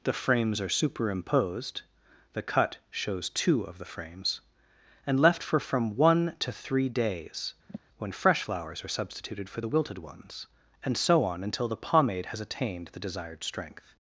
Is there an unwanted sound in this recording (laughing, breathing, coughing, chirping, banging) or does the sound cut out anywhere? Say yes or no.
yes